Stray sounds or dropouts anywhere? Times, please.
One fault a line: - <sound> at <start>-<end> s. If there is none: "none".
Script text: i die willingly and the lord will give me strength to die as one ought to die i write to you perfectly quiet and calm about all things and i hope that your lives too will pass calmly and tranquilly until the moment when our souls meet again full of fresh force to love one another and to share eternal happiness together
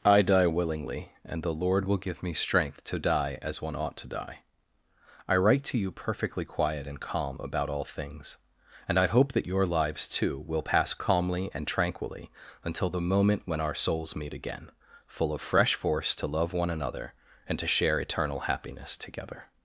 none